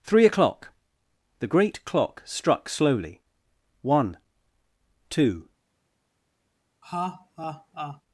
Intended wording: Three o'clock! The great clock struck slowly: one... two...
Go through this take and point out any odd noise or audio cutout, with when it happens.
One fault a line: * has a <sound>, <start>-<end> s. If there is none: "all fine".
* has a laugh, 6.8-8.0 s